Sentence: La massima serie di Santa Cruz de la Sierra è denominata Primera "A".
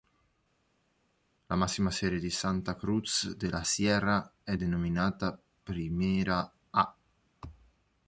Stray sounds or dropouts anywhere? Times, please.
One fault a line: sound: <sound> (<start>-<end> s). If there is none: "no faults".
no faults